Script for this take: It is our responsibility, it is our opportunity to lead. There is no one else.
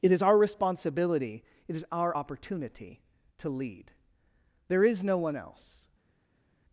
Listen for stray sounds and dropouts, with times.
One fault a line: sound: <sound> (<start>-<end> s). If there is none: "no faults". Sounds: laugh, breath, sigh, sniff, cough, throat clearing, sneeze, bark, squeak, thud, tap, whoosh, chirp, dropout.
no faults